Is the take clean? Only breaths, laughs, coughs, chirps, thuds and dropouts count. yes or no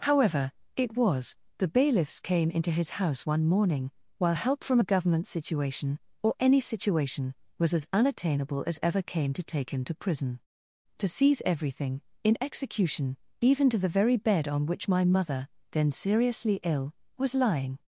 yes